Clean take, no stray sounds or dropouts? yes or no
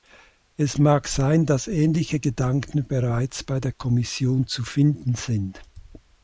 yes